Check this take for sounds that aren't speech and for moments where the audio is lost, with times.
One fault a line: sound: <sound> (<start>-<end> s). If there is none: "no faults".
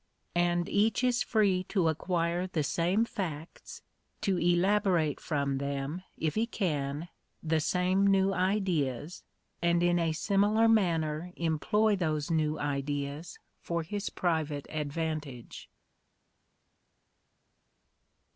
no faults